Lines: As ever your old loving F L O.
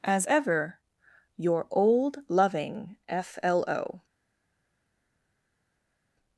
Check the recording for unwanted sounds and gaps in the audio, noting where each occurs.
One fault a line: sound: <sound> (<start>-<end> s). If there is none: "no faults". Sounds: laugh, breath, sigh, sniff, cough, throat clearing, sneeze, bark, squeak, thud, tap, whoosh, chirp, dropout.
no faults